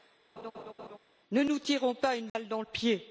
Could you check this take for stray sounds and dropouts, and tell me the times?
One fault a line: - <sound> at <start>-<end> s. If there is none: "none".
- laugh at 0.4-1.0 s
- dropout at 2.3-2.3 s